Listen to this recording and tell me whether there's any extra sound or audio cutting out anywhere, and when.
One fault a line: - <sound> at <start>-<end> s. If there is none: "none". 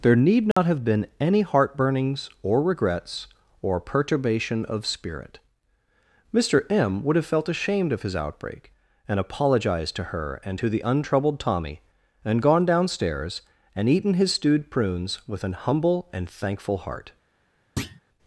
- dropout at 0.5-0.6 s
- thud at 17.8-18.0 s